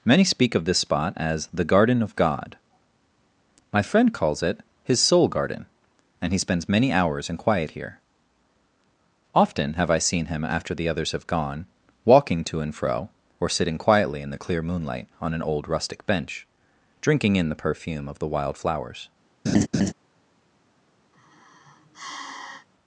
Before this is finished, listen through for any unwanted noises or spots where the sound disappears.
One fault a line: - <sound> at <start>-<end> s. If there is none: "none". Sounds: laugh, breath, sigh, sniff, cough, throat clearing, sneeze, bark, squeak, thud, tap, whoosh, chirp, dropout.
- laugh at 19.5-19.9 s
- sigh at 21.1-22.7 s